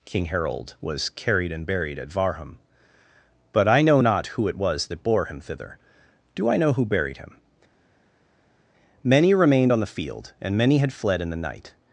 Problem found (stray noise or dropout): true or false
false